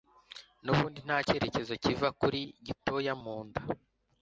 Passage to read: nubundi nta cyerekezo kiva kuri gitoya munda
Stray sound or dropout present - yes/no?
no